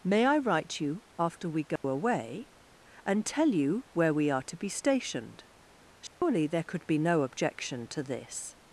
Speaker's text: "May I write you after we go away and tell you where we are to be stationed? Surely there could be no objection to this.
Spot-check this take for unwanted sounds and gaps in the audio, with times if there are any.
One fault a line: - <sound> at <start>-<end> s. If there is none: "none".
- dropout at 1.8-1.8 s
- dropout at 6.1-6.2 s